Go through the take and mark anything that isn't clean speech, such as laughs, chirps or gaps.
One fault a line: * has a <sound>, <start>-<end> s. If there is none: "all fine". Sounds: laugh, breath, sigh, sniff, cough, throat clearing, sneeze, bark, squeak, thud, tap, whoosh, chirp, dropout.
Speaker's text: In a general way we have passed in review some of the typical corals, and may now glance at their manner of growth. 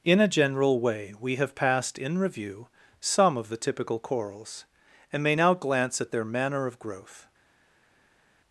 all fine